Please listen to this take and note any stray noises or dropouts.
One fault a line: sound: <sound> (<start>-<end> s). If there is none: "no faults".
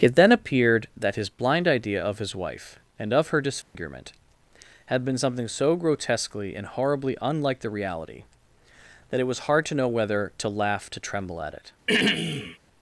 sound: dropout (3.6-3.7 s)
sound: throat clearing (11.9-12.6 s)